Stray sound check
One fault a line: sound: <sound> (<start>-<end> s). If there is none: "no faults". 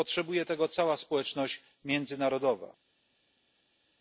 no faults